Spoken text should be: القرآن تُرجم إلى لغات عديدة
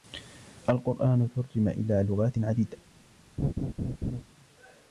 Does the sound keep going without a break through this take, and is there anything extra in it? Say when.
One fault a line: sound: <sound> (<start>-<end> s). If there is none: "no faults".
sound: laugh (3.4-4.2 s)